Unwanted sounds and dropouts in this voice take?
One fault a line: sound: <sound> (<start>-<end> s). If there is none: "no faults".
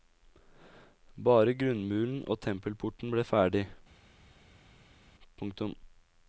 no faults